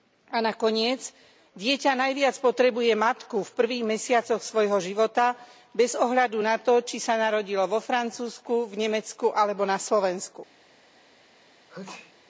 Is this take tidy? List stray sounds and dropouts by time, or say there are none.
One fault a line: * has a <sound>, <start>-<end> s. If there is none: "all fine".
* has a sneeze, 11.7-12.1 s